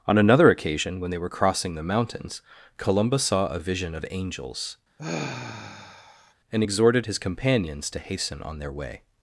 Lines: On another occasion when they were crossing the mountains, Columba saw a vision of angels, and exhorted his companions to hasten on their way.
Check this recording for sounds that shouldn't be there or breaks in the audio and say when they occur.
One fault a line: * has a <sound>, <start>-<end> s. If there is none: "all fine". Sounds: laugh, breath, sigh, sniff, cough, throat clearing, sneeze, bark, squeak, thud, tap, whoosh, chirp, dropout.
* has a sigh, 5.0-6.3 s